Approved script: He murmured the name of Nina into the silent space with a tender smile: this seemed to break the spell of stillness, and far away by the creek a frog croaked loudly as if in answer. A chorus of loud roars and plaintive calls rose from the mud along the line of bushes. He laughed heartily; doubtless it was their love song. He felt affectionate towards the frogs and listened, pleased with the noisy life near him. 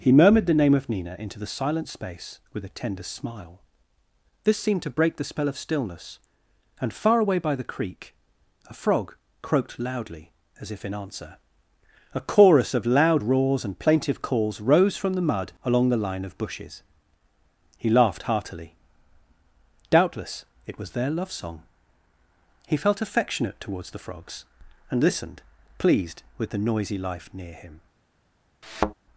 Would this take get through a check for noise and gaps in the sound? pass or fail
fail